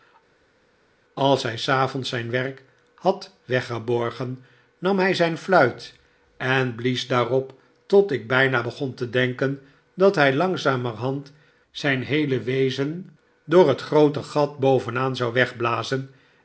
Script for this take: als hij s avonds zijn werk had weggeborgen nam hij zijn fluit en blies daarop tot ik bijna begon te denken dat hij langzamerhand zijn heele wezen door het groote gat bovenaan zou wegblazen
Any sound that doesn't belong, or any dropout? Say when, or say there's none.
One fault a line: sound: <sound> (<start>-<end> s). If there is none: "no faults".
no faults